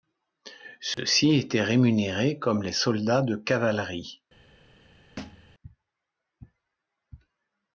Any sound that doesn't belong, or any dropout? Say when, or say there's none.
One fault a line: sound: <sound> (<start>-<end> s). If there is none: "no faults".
sound: dropout (0.9-1.0 s)
sound: thud (5.2-5.5 s)